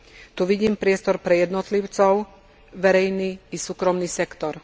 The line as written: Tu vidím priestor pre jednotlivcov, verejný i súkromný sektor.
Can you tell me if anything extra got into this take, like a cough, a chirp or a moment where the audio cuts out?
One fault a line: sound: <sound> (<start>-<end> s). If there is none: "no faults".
no faults